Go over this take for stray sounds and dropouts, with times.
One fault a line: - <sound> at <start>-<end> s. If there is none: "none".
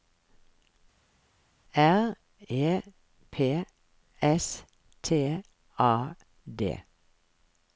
none